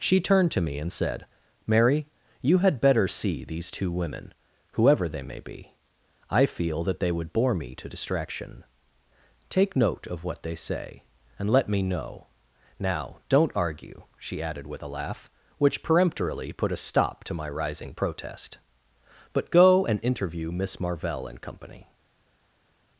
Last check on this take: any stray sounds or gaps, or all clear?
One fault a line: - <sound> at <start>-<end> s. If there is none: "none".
none